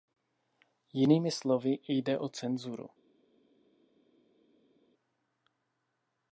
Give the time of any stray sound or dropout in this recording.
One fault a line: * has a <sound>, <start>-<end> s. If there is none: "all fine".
all fine